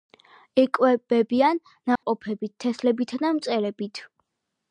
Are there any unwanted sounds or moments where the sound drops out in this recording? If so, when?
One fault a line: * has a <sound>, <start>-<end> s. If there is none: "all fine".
* has a dropout, 2.0-2.0 s